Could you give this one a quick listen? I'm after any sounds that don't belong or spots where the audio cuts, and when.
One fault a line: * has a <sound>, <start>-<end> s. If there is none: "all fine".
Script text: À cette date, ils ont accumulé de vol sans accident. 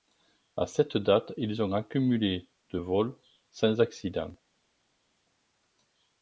all fine